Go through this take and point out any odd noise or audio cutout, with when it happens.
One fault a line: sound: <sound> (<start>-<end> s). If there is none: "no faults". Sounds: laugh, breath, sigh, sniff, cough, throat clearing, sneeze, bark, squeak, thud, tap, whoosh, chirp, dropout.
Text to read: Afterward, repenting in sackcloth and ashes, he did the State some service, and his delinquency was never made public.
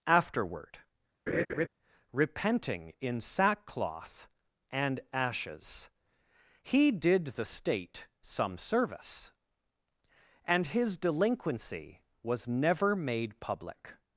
sound: laugh (1.3-1.7 s)